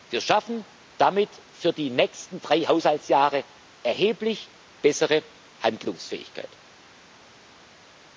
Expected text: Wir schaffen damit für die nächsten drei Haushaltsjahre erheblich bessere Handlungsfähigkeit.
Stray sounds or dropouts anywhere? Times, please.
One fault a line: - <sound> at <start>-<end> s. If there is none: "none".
none